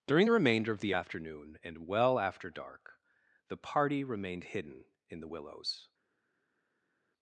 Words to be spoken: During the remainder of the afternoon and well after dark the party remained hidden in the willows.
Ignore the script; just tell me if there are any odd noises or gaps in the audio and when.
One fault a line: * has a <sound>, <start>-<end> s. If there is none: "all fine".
all fine